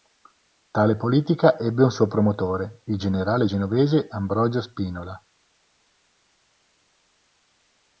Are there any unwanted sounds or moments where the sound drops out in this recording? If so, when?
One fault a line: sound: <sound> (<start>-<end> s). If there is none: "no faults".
no faults